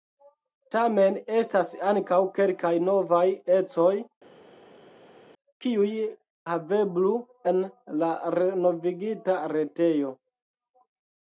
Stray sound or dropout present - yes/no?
no